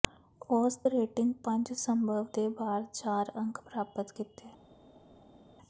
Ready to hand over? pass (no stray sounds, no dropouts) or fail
pass